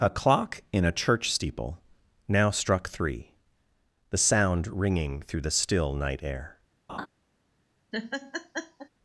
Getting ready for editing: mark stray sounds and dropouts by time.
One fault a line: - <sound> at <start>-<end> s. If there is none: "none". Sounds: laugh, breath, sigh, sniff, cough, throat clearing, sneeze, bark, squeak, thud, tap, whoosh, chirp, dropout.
- laugh at 6.9-7.1 s
- laugh at 7.9-8.9 s